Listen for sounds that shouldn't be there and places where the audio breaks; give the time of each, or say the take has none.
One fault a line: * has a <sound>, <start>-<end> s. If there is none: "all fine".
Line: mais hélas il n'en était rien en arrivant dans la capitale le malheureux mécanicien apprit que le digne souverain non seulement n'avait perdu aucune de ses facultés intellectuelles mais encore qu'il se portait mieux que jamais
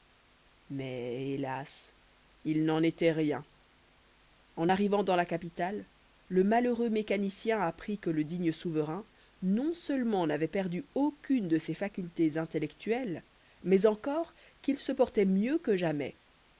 all fine